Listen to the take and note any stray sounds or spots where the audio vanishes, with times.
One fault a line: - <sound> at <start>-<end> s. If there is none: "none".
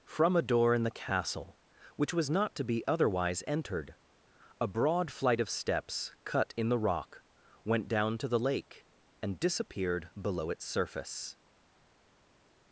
none